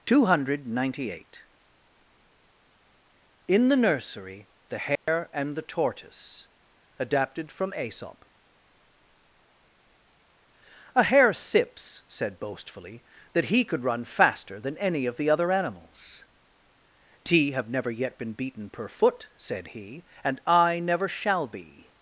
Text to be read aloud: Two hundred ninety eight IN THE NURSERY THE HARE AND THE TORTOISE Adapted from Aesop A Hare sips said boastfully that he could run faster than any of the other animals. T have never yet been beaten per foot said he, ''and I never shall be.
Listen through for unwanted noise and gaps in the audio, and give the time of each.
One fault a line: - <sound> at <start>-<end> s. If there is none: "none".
- dropout at 5.0-5.1 s